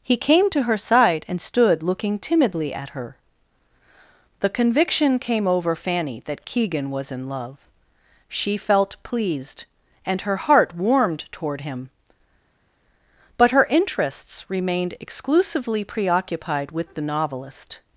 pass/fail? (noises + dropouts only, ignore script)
pass